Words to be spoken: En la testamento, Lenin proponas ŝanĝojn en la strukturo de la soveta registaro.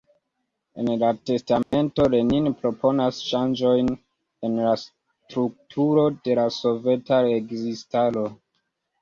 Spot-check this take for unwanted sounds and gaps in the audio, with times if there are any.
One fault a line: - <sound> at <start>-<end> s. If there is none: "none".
- dropout at 1.6-1.7 s